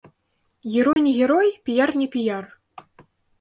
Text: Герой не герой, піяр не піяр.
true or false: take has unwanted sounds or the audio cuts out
true